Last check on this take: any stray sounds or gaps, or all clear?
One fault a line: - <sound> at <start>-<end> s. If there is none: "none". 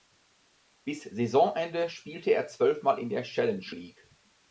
none